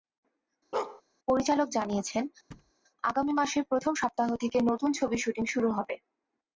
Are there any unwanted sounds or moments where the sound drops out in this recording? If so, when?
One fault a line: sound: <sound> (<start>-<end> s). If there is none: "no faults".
sound: bark (0.7-1.0 s)
sound: thud (2.5-2.7 s)